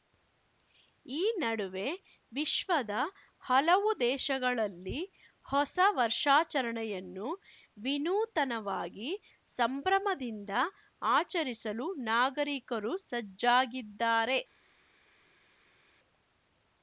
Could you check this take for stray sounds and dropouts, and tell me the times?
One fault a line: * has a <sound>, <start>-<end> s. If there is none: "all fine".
all fine